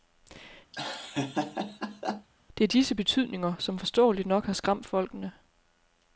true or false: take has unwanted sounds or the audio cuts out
true